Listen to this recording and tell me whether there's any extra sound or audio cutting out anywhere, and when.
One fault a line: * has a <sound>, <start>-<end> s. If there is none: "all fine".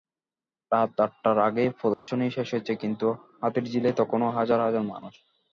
* has a dropout, 1.9-2.1 s